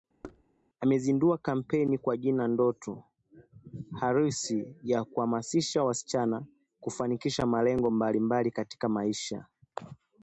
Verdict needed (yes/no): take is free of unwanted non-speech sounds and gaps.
no